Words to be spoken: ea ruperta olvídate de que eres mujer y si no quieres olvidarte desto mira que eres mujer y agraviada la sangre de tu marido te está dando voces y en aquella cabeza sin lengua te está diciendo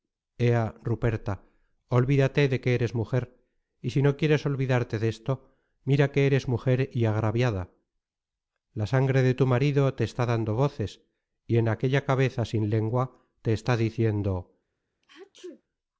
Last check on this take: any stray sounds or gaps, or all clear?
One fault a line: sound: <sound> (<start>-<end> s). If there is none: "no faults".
sound: sneeze (15.0-15.6 s)